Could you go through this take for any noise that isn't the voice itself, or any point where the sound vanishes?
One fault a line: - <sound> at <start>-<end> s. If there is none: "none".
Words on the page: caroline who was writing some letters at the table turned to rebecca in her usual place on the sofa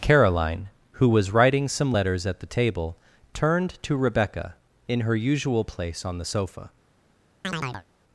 - chirp at 7.4-7.9 s